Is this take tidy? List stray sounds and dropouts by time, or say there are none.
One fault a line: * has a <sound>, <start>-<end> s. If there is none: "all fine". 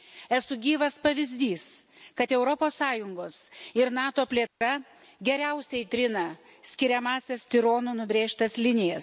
* has a dropout, 4.5-4.6 s